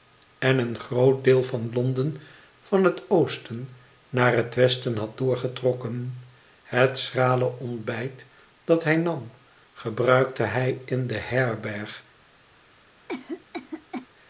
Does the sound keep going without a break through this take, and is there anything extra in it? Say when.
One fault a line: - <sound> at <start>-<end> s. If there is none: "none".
- cough at 13.1-14.1 s